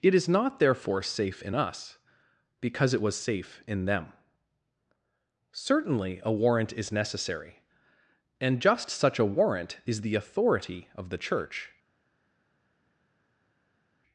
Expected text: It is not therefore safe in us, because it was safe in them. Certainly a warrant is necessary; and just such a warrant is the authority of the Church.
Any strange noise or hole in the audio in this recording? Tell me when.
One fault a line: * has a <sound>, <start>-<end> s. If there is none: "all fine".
all fine